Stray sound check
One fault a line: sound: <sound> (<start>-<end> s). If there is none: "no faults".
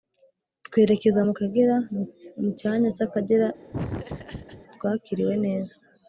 sound: laugh (3.7-4.6 s)